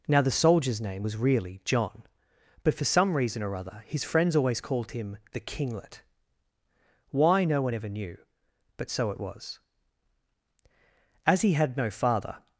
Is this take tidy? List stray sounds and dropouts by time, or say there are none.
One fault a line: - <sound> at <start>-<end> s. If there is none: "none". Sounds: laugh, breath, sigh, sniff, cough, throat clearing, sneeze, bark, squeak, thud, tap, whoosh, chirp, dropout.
none